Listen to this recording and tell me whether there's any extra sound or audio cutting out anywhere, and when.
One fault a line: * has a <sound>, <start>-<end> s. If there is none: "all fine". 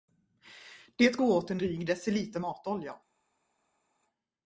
all fine